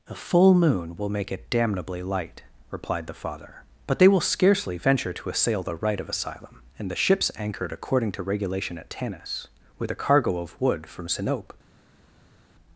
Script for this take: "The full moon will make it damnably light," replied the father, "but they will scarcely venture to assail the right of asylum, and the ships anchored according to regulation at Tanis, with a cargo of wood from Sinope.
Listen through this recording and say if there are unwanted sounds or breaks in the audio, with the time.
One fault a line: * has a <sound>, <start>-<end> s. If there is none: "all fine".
all fine